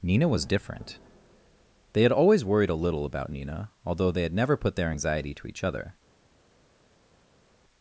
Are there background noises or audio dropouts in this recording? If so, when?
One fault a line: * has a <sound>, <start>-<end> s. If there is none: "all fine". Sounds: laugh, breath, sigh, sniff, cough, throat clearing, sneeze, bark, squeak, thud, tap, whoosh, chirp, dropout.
all fine